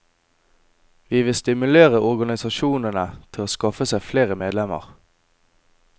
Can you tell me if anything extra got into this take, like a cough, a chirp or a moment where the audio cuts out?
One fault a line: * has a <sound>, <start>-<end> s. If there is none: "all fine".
all fine